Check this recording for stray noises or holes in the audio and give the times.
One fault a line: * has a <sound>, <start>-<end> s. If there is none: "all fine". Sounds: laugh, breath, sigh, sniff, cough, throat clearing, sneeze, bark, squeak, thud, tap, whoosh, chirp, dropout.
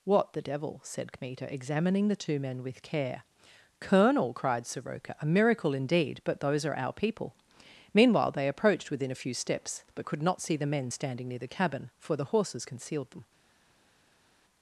all fine